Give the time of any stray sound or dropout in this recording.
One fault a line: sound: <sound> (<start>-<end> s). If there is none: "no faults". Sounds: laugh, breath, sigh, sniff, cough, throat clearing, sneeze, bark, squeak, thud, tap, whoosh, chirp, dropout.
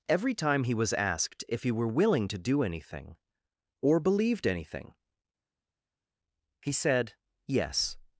no faults